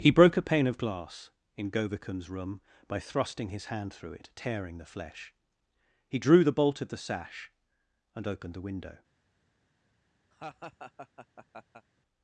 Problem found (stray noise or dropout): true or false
true